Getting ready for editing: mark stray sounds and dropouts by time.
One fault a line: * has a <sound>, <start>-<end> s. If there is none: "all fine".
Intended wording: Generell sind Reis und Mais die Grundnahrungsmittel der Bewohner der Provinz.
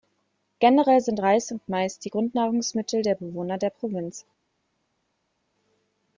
all fine